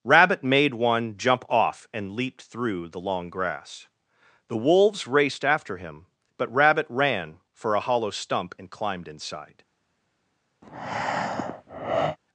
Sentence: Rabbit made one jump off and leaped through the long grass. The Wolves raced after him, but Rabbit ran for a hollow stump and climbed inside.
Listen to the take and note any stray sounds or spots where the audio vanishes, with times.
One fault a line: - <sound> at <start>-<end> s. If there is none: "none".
- breath at 10.6-12.2 s